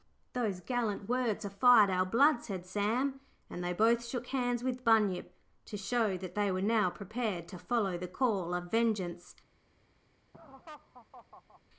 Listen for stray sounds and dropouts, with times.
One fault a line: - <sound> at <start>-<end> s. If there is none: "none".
- laugh at 10.3-11.6 s